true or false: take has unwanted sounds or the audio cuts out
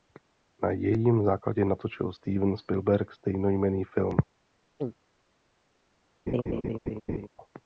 true